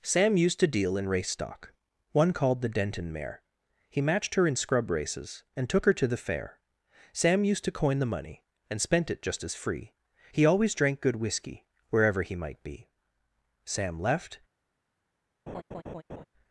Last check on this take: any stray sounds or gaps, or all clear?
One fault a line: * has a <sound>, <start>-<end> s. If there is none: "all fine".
* has a laugh, 15.5-16.2 s